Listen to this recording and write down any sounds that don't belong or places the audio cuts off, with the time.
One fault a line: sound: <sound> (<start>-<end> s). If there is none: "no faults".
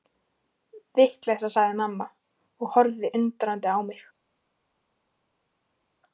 no faults